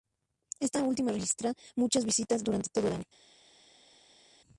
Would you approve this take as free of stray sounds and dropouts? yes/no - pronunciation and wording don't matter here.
yes